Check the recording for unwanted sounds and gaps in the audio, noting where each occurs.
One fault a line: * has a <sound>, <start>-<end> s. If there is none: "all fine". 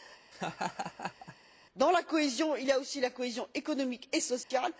* has a laugh, 0.3-1.4 s
* has a dropout, 4.4-4.5 s